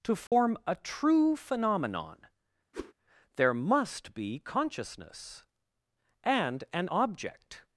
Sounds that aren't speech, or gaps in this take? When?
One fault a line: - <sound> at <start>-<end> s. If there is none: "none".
- dropout at 0.3-0.3 s
- whoosh at 2.7-2.9 s